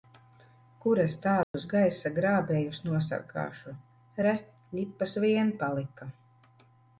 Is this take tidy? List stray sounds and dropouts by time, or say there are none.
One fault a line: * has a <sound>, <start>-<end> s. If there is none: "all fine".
* has a dropout, 1.4-1.5 s